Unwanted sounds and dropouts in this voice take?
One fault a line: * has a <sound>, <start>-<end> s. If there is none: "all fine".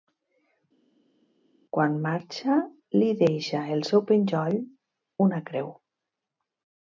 all fine